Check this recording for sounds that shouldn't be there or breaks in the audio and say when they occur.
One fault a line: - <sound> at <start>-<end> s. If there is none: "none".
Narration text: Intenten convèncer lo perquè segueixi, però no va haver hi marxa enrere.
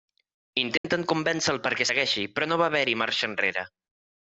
- dropout at 0.8-0.8 s